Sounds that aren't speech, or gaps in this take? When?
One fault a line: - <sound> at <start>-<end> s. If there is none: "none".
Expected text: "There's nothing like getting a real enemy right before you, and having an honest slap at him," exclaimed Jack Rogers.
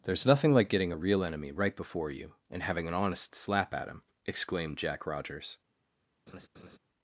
- laugh at 6.3-6.8 s